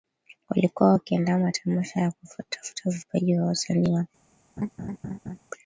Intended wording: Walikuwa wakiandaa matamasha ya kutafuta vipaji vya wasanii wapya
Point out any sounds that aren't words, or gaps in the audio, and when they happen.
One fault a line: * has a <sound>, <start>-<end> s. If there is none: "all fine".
* has a laugh, 4.6-5.4 s